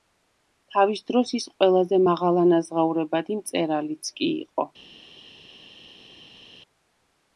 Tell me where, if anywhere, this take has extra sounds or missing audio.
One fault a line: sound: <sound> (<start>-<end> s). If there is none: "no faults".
no faults